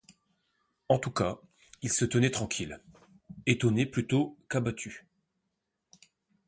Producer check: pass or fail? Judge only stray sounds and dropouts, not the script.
pass